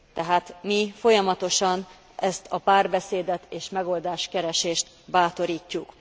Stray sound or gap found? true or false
false